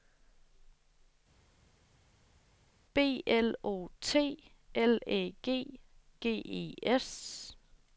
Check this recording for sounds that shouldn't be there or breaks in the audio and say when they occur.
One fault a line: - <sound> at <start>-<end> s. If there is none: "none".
none